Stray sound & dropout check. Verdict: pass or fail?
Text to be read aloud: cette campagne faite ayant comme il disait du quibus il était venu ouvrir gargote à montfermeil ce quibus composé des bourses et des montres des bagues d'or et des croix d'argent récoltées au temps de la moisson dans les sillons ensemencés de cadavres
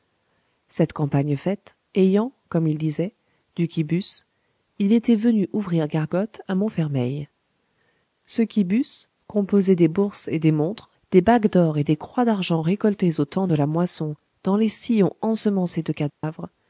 fail